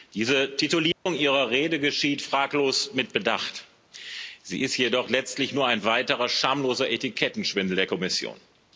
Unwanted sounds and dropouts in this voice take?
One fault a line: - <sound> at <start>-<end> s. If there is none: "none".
- dropout at 0.9-1.1 s